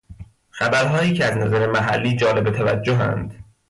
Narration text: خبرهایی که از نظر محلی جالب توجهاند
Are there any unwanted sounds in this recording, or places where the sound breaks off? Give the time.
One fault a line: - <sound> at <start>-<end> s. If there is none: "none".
none